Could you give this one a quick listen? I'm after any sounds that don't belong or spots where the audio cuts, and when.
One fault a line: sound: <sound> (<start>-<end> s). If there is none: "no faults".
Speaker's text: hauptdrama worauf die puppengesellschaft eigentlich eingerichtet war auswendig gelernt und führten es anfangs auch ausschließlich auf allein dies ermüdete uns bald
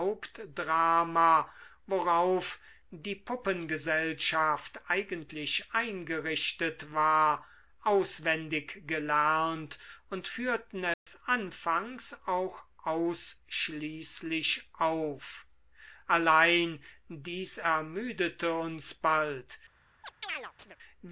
sound: dropout (10.9-11.1 s)
sound: chirp (20.0-20.8 s)